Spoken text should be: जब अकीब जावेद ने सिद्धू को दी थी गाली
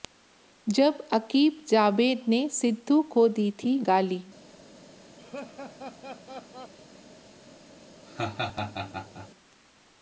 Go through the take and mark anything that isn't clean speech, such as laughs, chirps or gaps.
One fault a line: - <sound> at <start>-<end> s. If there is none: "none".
- laugh at 5.2-6.7 s
- laugh at 8.1-9.3 s